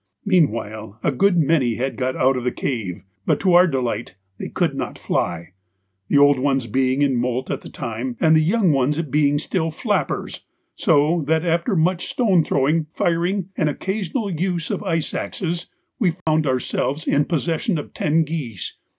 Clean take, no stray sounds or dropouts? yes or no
no